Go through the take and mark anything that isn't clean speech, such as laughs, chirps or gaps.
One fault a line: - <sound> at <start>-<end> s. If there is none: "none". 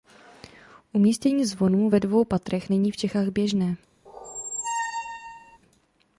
- squeak at 4.1-5.6 s